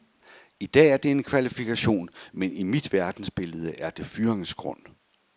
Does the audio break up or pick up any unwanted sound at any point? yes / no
no